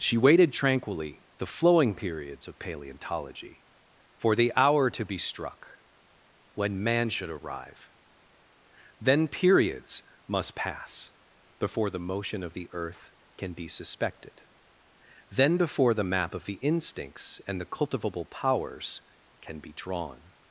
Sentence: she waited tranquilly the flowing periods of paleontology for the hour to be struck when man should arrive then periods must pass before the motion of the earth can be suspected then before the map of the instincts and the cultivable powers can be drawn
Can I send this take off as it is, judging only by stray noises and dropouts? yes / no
yes